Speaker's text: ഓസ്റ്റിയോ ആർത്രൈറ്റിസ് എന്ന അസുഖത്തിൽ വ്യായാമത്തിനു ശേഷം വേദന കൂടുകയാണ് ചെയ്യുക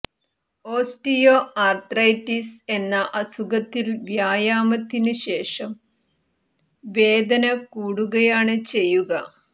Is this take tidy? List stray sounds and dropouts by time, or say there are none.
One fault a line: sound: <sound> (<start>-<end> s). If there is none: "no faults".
no faults